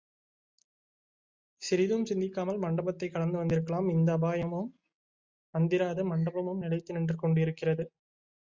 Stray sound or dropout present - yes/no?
no